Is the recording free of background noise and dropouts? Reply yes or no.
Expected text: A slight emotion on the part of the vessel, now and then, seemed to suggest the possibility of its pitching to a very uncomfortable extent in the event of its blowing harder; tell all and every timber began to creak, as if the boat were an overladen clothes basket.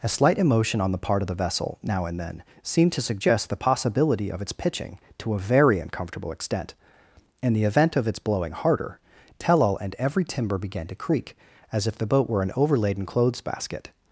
yes